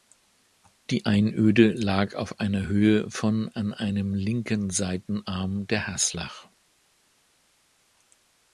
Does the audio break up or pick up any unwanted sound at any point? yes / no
no